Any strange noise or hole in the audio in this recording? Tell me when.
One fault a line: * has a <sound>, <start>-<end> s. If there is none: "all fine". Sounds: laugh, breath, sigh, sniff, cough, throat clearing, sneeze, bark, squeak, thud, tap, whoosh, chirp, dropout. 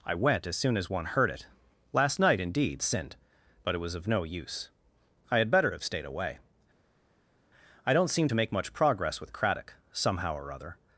all fine